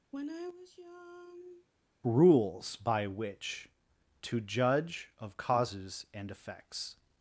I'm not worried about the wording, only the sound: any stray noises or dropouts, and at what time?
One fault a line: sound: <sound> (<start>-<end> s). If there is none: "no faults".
sound: sigh (0.1-1.7 s)